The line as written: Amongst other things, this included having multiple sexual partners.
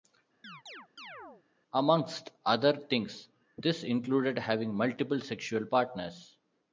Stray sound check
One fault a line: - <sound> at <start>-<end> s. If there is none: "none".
- chirp at 0.4-1.4 s